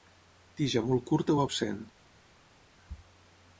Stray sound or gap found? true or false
false